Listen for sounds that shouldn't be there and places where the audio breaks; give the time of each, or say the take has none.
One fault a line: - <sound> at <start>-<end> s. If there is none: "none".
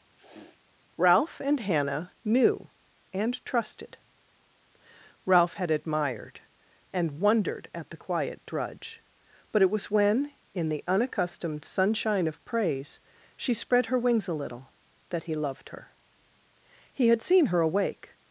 - sniff at 0.1-0.6 s